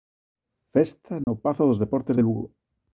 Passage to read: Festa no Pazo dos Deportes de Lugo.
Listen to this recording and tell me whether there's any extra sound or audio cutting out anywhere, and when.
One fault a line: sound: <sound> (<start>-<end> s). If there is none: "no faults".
sound: dropout (1.2-1.3 s)